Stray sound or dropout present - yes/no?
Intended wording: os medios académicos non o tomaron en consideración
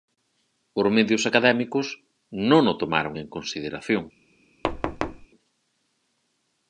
yes